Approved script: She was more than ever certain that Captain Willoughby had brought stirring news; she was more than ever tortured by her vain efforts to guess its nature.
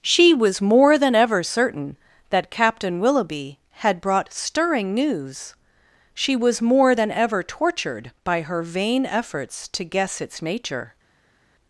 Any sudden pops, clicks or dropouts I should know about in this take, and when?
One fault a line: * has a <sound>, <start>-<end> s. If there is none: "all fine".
all fine